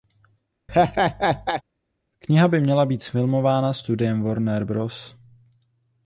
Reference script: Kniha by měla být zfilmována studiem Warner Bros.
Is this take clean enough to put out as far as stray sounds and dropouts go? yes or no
no